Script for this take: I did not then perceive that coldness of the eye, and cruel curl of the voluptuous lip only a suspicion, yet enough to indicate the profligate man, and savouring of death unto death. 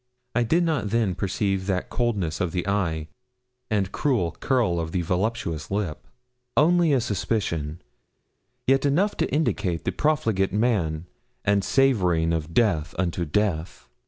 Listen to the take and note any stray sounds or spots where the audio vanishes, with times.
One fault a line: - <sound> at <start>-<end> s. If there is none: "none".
none